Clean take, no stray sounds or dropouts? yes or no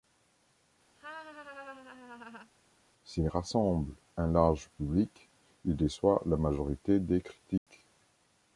no